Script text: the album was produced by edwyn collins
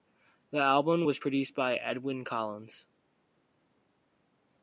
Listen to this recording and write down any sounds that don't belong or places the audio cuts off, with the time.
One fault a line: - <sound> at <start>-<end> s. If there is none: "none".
none